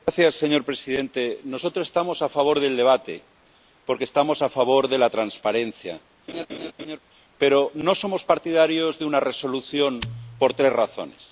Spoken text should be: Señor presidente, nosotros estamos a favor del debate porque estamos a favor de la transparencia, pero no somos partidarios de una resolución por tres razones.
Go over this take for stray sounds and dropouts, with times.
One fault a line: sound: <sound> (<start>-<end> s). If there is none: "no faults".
sound: laugh (6.3-7.0 s)